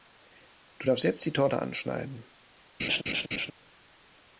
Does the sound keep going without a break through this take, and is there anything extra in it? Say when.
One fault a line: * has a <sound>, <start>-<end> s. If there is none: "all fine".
* has a laugh, 2.8-3.5 s